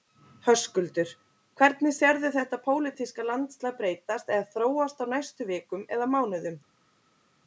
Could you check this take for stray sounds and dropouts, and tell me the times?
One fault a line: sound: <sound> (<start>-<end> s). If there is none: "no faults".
no faults